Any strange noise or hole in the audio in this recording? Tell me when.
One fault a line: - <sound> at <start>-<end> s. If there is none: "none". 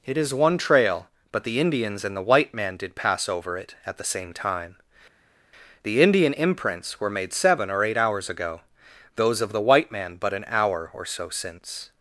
none